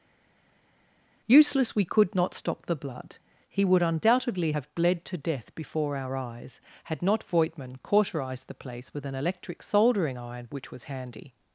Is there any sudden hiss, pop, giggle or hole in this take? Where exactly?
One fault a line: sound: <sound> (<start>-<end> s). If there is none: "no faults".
no faults